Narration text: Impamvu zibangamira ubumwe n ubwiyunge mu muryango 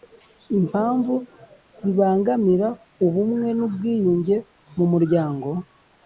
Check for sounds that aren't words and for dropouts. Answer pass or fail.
pass